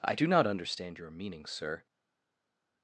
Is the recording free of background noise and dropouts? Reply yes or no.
yes